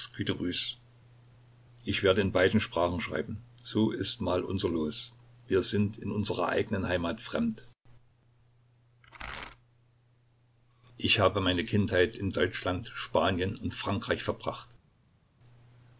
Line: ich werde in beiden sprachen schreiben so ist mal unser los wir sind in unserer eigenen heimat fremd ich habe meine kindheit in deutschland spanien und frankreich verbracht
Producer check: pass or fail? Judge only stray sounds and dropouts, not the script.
pass